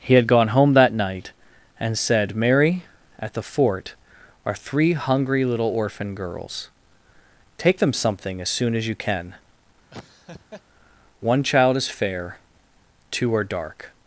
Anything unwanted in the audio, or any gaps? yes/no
yes